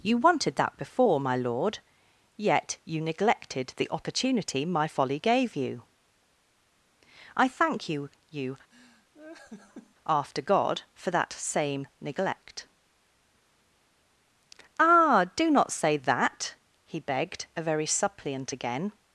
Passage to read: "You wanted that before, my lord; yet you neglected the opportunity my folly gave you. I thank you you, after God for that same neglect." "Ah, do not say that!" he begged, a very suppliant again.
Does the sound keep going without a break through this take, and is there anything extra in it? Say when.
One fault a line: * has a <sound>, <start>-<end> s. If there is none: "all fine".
* has a laugh, 8.7-10.0 s